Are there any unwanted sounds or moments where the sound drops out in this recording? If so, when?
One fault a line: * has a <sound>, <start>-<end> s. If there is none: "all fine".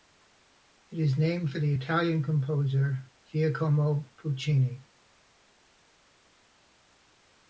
all fine